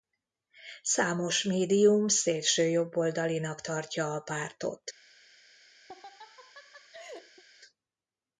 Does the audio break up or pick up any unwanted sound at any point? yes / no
yes